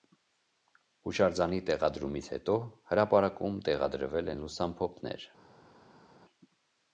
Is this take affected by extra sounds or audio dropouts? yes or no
no